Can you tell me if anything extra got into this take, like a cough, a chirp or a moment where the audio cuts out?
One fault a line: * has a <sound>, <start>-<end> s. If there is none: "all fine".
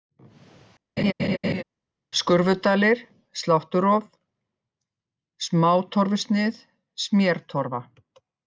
* has a laugh, 1.0-1.6 s